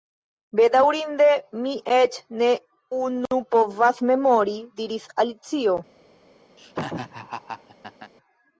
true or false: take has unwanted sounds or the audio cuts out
true